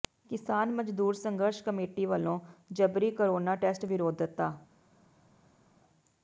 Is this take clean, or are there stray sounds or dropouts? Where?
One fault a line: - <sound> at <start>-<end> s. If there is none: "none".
none